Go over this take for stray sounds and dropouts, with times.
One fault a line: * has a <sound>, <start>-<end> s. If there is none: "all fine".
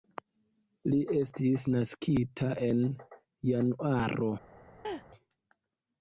* has a laugh, 4.8-5.1 s